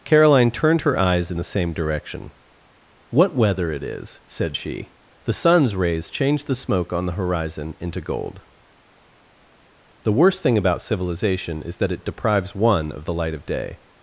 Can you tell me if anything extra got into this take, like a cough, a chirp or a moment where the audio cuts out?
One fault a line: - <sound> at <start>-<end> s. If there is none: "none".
none